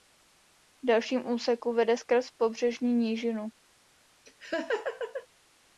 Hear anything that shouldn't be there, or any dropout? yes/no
yes